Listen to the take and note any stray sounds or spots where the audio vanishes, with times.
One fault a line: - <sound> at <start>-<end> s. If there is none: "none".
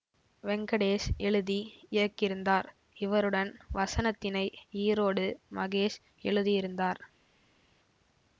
none